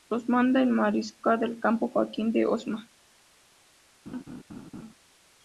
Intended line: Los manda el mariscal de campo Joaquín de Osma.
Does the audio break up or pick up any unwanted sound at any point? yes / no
yes